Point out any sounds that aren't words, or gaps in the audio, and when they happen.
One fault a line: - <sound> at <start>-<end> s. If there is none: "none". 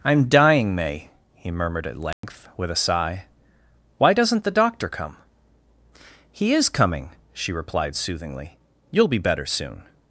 - dropout at 2.1-2.2 s